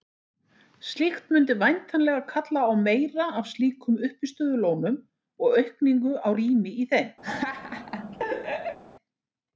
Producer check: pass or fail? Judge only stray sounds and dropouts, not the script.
fail